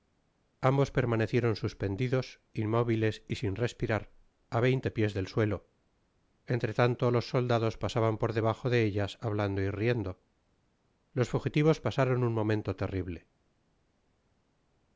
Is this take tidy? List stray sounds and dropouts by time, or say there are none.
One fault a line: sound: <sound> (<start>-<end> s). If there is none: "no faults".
no faults